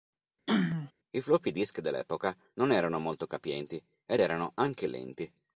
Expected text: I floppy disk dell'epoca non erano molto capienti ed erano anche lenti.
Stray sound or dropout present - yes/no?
yes